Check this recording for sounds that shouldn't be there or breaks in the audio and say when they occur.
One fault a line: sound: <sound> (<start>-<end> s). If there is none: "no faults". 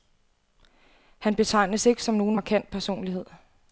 no faults